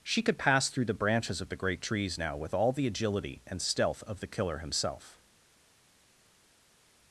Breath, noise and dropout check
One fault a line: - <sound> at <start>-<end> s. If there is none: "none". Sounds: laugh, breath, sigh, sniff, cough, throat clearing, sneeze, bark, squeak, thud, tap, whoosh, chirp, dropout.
none